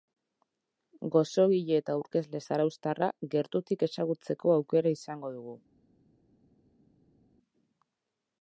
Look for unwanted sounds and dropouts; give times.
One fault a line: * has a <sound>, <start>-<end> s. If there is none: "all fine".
all fine